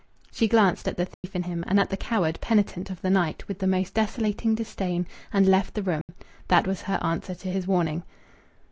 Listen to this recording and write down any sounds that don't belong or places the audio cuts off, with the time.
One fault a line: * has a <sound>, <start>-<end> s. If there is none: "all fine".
* has a dropout, 1.1-1.2 s
* has a dropout, 6.0-6.1 s